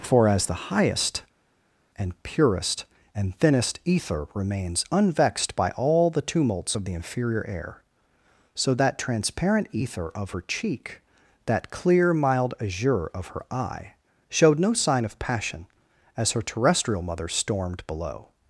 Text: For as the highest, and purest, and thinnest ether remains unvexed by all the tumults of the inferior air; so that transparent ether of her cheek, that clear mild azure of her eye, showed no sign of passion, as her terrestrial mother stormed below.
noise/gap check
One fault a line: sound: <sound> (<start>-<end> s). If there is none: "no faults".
no faults